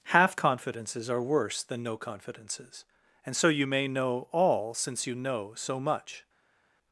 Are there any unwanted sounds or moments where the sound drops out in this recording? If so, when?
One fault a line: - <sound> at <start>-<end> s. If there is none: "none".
none